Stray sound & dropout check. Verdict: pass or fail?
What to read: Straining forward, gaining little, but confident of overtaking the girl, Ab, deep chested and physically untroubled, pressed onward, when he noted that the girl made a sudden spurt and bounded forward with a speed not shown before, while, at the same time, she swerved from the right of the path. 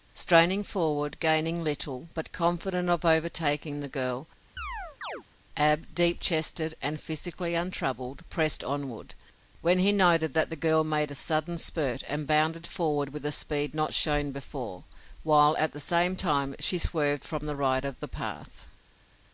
fail